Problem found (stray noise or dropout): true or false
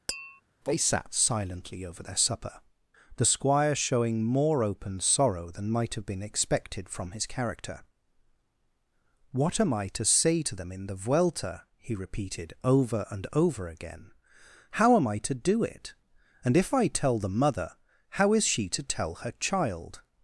true